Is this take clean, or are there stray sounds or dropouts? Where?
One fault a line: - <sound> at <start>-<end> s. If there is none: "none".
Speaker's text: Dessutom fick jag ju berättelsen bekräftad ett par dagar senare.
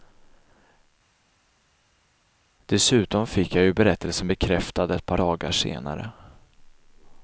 none